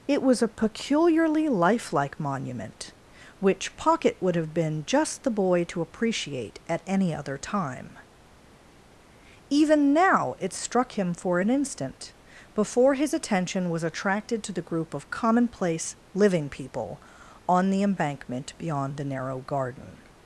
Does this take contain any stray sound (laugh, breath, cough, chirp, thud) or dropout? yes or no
no